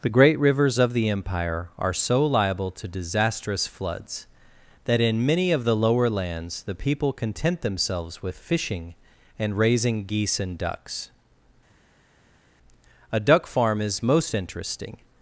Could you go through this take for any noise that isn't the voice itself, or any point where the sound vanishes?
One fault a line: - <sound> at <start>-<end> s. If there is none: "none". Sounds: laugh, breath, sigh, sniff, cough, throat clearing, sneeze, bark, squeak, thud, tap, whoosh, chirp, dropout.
none